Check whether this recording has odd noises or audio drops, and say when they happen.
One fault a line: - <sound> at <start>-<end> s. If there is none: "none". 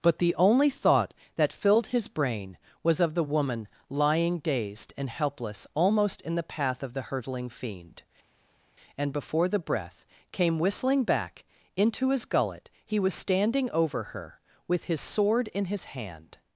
none